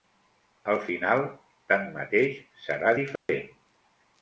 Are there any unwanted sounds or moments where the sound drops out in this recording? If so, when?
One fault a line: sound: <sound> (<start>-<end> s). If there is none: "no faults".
sound: dropout (3.2-3.3 s)